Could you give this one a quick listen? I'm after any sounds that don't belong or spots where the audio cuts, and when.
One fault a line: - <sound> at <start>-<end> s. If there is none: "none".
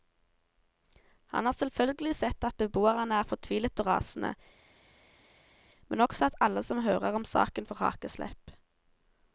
none